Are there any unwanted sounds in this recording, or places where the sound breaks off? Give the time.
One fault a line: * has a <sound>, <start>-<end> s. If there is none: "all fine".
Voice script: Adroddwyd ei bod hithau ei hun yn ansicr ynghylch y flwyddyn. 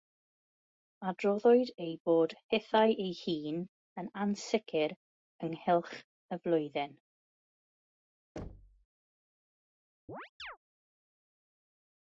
* has a thud, 8.4-8.9 s
* has a chirp, 10.1-10.6 s